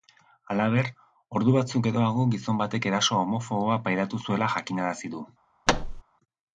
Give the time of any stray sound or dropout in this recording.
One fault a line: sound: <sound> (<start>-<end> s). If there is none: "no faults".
sound: thud (5.7-6.0 s)